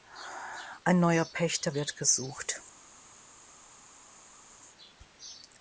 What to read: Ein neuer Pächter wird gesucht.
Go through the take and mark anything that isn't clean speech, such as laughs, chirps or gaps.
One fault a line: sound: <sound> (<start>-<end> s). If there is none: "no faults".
no faults